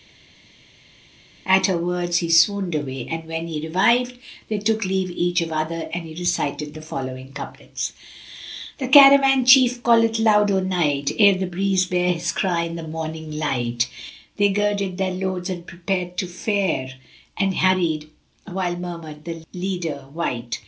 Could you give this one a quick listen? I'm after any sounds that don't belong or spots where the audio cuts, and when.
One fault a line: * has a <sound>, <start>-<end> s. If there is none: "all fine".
all fine